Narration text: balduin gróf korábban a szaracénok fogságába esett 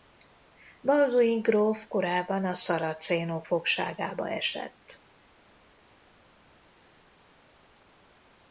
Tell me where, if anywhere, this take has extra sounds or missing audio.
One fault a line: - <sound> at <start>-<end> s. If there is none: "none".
none